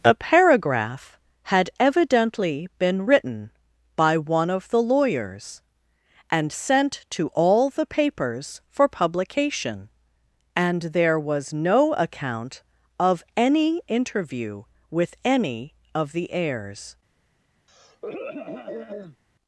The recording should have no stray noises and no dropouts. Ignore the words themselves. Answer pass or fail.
fail